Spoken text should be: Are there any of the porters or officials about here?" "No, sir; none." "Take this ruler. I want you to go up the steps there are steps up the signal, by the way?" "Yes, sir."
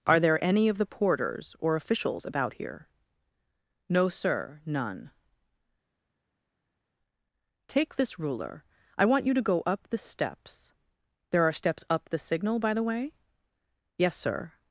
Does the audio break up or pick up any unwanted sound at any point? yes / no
no